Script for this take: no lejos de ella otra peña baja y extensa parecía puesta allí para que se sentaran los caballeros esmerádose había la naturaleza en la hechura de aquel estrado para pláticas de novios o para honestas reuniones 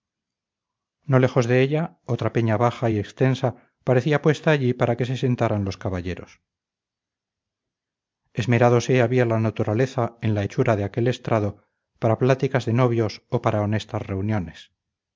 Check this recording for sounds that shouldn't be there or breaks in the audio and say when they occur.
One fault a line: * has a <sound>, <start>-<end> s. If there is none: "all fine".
all fine